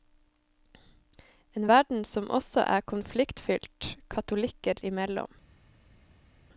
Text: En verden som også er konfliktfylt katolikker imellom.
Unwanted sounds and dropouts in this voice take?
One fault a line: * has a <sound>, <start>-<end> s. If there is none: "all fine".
all fine